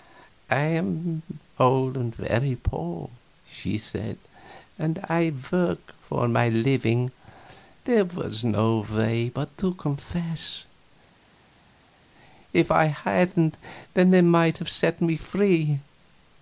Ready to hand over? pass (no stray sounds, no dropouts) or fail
pass